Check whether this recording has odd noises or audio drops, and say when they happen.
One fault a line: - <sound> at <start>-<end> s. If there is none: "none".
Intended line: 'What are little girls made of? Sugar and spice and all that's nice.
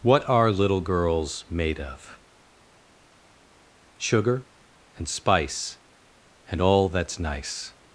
none